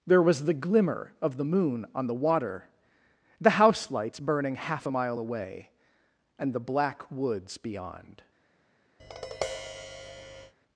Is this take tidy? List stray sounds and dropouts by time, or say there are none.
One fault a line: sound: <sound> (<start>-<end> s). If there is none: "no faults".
sound: tap (9.0-10.5 s)